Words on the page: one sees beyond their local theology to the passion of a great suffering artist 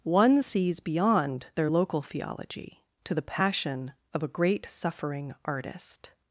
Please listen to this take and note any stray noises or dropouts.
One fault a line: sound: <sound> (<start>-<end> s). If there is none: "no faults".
no faults